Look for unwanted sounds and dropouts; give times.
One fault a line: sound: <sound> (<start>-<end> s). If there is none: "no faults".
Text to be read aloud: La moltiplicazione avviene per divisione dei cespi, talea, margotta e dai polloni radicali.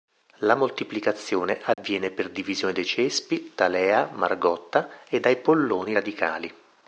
sound: dropout (1.7-1.8 s)